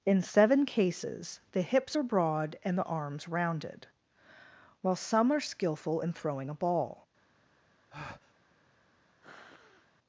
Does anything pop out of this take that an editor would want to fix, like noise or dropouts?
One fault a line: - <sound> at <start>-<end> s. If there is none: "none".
- breath at 7.9-8.3 s
- sniff at 9.2-9.9 s